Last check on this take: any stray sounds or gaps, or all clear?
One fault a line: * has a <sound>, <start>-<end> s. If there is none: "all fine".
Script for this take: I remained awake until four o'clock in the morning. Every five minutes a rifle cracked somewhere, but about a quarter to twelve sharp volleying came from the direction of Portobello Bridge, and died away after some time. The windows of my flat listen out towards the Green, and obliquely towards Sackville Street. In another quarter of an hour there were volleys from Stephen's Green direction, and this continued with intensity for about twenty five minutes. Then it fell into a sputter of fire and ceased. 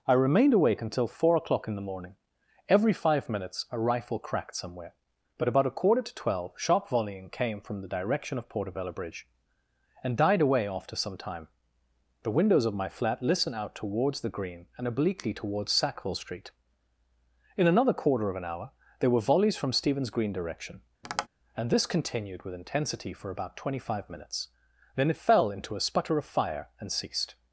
* has a tap, 21.0-21.3 s